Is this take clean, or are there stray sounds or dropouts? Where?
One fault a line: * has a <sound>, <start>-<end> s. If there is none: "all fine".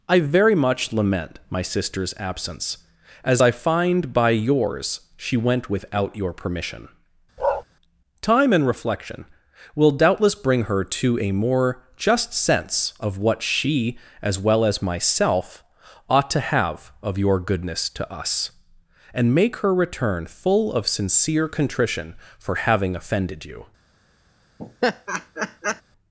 * has a bark, 7.4-7.6 s
* has a laugh, 24.6-25.8 s